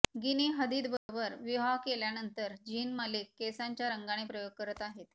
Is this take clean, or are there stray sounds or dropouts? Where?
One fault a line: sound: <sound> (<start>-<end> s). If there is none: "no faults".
sound: dropout (1.0-1.1 s)